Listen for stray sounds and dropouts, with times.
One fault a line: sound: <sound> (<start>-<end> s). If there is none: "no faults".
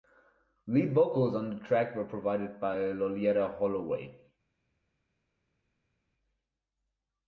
no faults